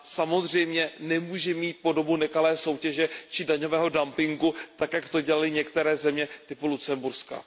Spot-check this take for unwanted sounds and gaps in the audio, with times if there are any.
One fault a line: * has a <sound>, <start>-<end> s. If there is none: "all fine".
all fine